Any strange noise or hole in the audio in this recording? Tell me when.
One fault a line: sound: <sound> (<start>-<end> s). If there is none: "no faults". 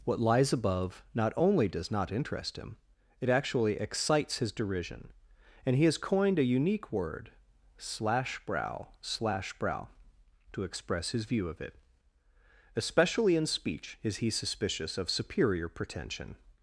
no faults